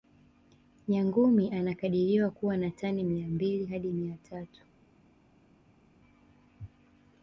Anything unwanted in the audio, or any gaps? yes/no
no